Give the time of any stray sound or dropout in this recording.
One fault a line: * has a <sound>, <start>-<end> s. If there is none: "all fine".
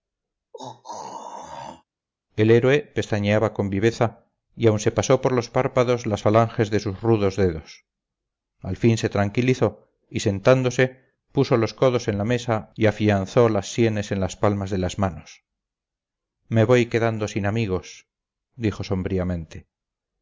* has a throat clearing, 0.5-1.8 s